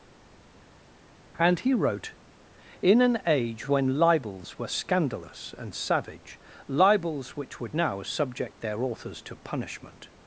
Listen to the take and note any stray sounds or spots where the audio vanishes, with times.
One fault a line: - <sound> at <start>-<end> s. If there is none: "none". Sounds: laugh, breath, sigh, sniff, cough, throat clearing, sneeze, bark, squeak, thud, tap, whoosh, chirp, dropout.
none